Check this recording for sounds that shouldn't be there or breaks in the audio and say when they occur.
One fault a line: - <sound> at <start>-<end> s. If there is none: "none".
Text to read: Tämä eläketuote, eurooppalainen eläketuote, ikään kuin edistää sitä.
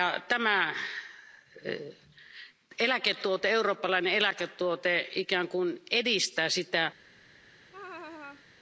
- laugh at 7.7-8.5 s